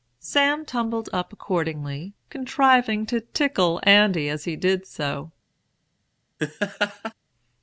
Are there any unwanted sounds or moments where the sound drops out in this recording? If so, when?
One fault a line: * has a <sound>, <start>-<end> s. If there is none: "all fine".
* has a laugh, 6.4-7.1 s